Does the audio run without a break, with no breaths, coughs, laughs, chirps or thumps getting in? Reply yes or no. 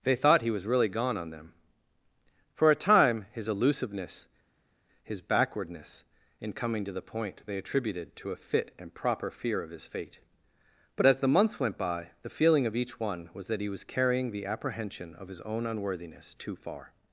yes